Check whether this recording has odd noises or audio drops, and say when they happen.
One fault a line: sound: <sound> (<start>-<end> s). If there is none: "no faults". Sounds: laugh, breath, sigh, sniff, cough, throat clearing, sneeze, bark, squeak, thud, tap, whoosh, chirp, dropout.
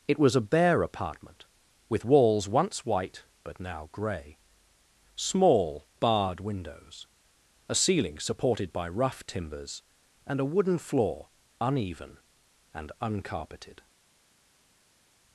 no faults